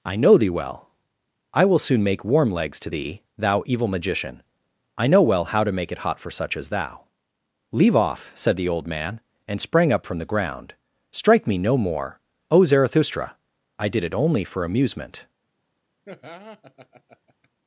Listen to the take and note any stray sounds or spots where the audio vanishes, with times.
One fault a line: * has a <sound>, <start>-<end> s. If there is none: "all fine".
* has a laugh, 16.0-17.5 s